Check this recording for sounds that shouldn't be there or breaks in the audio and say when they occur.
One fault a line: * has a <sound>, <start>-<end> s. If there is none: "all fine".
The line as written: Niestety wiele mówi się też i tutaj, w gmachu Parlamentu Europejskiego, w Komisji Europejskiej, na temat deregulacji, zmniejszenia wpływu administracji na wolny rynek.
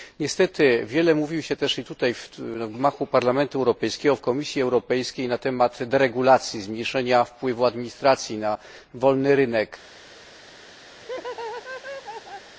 * has a laugh, 11.0-12.5 s